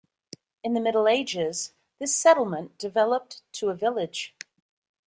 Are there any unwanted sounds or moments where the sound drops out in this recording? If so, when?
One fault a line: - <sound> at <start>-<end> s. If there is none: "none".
none